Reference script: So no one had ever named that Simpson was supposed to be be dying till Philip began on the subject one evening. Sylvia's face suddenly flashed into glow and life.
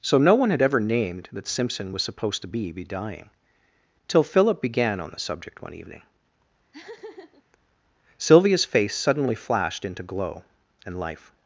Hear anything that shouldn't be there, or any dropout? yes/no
yes